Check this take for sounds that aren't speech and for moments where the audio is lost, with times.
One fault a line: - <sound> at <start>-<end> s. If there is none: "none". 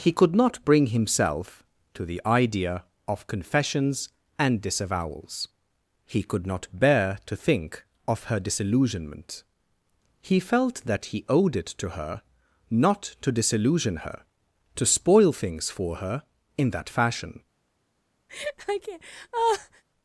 - laugh at 18.3-19.8 s